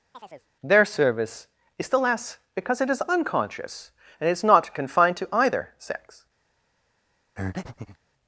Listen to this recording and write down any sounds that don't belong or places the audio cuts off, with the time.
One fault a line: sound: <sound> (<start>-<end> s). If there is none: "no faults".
sound: chirp (0.1-0.5 s)
sound: breath (7.4-8.0 s)